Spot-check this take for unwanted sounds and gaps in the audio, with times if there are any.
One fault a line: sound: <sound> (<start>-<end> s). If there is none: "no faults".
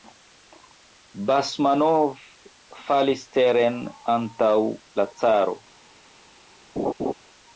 sound: laugh (6.8-7.1 s)